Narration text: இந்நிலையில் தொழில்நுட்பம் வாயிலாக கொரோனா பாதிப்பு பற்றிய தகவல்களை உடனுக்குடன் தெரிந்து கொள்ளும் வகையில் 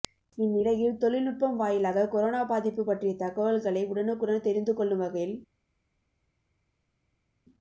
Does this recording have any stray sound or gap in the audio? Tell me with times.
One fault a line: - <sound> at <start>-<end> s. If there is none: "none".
none